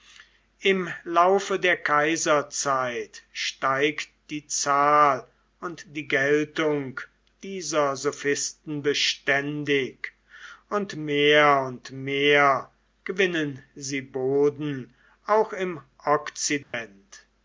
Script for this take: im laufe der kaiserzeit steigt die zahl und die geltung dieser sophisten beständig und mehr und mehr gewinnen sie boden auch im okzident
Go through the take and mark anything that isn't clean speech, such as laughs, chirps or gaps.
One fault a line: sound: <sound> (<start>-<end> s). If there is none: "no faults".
sound: dropout (16.6-16.7 s)